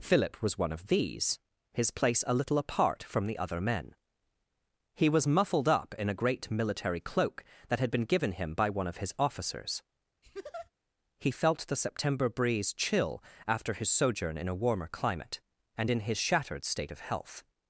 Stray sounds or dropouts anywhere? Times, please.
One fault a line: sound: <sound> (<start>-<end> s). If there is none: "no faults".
sound: laugh (10.2-10.7 s)